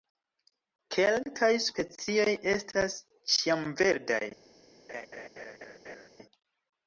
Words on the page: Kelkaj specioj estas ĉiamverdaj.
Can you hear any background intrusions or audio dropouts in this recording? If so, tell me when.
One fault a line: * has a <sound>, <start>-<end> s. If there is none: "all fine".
* has a laugh, 4.9-6.1 s